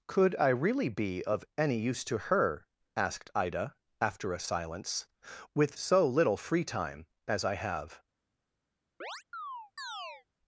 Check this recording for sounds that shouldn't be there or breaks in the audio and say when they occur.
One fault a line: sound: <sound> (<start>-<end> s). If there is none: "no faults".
sound: chirp (9.0-10.3 s)